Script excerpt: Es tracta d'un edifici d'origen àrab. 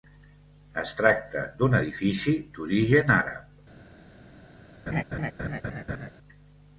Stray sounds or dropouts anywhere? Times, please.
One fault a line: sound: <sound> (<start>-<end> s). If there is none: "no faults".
sound: laugh (4.9-6.1 s)